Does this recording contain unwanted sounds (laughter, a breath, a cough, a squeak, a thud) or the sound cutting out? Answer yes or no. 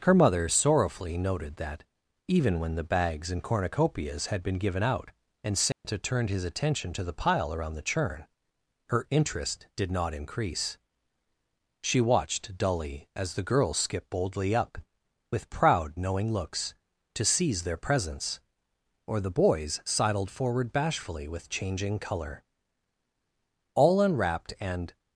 yes